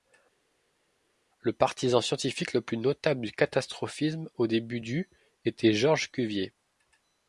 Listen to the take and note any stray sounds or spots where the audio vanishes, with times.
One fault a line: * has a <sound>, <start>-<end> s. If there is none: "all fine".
all fine